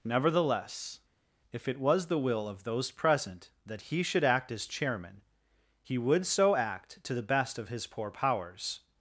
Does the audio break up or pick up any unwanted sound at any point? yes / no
no